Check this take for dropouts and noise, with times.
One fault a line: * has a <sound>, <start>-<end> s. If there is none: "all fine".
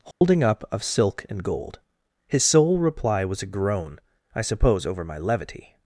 * has a dropout, 0.1-0.2 s